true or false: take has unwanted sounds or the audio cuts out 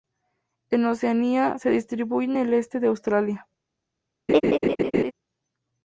true